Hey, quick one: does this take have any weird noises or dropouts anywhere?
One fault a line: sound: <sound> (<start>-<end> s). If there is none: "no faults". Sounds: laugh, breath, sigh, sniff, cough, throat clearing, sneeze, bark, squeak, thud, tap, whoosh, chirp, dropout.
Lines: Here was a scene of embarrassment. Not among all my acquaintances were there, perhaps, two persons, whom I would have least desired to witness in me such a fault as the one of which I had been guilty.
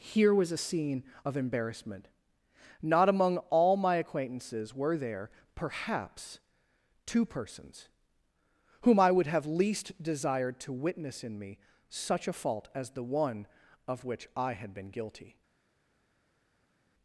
no faults